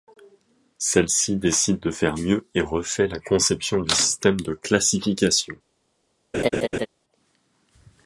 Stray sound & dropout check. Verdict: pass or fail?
fail